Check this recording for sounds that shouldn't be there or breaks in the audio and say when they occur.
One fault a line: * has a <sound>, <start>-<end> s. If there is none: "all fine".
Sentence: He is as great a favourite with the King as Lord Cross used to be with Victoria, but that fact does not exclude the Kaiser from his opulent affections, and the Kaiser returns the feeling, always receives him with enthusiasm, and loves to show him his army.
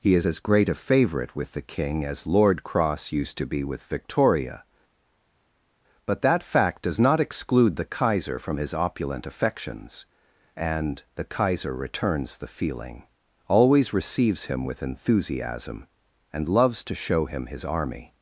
all fine